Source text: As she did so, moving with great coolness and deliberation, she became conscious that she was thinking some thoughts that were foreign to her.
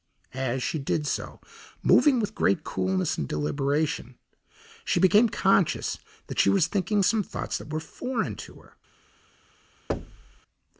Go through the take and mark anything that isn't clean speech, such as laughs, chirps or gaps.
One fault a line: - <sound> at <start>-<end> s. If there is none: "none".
- thud at 9.9-10.4 s